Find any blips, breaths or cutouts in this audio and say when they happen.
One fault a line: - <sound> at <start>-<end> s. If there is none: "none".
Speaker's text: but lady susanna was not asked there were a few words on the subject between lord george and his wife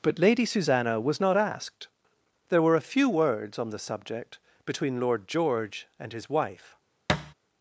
- thud at 7.1-7.3 s